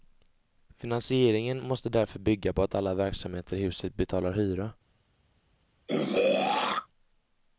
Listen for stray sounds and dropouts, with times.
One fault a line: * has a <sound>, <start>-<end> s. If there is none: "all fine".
* has a throat clearing, 5.9-6.9 s